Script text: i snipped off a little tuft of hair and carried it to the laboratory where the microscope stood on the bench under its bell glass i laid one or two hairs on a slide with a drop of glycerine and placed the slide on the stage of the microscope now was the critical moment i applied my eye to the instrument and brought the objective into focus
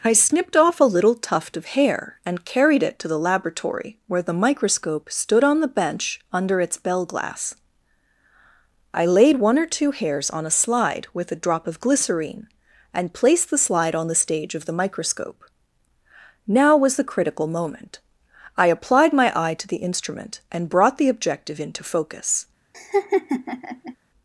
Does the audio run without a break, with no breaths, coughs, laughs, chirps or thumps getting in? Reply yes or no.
no